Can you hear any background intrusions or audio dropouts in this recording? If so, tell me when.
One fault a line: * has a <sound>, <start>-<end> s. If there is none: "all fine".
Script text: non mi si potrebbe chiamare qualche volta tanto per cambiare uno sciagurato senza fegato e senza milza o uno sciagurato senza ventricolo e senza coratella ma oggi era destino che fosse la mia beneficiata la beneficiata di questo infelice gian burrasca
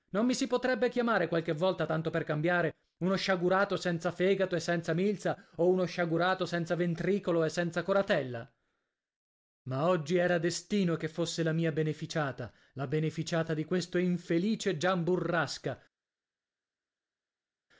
all fine